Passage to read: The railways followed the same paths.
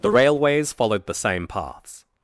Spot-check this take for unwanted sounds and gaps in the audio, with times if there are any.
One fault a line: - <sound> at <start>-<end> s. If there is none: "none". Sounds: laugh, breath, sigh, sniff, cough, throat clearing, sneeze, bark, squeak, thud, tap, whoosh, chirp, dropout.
none